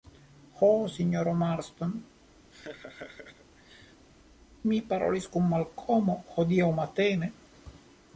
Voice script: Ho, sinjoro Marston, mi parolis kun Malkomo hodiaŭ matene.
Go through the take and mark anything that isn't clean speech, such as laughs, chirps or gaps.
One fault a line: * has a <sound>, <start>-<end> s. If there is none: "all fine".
* has a laugh, 2.5-4.1 s